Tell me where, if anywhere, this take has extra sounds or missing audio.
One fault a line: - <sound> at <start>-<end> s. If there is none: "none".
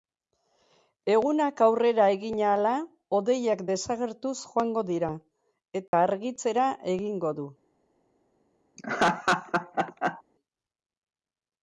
- dropout at 5.9-5.9 s
- laugh at 8.8-10.2 s